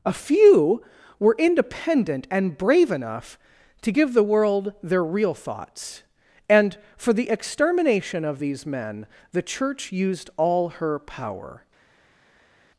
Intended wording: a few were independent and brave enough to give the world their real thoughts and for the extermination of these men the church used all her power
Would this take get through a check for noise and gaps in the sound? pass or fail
pass